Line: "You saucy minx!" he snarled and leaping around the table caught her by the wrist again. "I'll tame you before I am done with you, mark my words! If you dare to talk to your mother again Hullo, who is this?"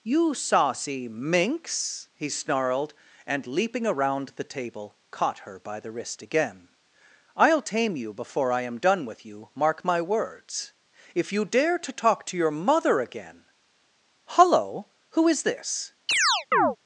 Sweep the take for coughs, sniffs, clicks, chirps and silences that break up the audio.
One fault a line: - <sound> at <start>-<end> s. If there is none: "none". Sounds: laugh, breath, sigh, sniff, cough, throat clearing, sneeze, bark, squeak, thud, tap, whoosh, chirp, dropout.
- chirp at 16.1-16.8 s